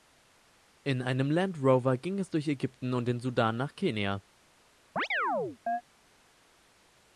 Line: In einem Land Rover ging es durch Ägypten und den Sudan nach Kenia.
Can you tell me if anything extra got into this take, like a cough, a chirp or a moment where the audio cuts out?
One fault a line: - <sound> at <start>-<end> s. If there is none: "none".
- chirp at 5.0-5.8 s